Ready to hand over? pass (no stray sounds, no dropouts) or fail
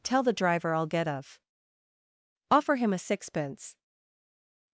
pass